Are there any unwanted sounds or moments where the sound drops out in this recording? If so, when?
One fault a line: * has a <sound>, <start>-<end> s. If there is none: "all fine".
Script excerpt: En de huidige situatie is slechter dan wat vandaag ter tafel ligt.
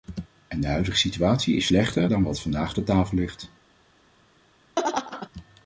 * has a laugh, 4.8-5.3 s